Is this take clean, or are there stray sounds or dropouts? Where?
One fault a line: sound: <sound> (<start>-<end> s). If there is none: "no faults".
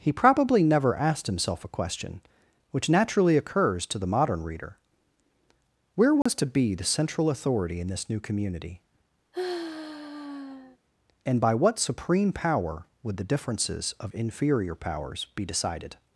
sound: dropout (6.2-6.3 s)
sound: sigh (9.3-10.8 s)